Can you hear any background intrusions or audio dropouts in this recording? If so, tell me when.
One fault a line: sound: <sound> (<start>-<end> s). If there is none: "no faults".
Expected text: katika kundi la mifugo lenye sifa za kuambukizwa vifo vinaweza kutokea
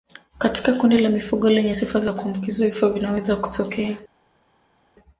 no faults